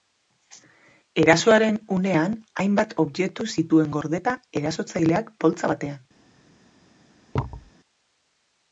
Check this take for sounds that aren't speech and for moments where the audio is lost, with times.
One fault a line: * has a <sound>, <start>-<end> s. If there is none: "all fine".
* has a thud, 7.3-7.7 s